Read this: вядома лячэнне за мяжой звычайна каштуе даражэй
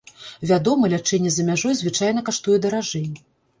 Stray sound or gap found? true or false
false